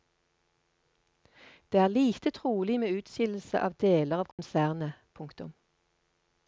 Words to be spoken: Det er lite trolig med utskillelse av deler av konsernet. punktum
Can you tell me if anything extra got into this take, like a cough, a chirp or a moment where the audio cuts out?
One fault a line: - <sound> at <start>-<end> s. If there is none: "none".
- dropout at 4.3-4.4 s